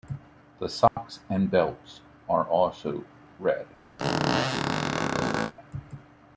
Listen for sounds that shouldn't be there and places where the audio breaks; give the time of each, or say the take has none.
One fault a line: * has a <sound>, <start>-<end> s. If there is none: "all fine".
* has a dropout, 0.9-1.0 s
* has a squeak, 4.0-5.5 s